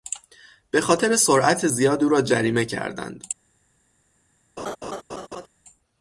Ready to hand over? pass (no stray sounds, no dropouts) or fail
fail